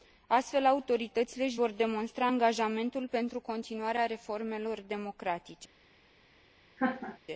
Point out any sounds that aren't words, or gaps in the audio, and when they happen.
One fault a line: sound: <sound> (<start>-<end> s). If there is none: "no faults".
sound: laugh (6.8-7.2 s)